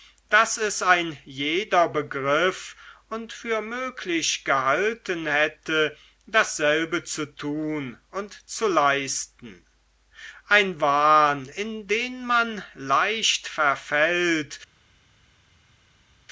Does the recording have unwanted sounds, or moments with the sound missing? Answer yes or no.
no